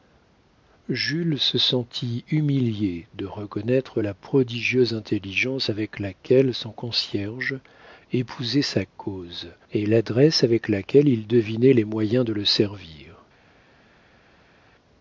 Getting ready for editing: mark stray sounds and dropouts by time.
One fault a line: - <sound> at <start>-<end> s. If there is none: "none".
none